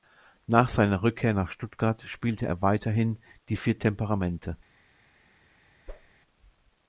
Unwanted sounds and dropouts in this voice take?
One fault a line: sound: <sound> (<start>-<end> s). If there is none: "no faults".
sound: whoosh (5.9-6.1 s)